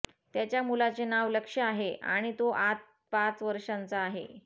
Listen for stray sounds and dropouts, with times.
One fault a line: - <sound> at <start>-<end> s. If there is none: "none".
none